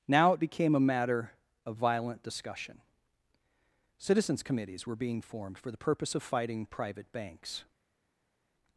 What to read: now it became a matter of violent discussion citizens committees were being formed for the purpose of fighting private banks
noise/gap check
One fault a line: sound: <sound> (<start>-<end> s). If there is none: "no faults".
no faults